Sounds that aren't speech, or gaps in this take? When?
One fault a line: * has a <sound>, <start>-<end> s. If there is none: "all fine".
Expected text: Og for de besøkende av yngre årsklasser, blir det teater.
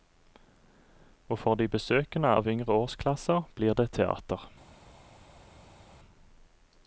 all fine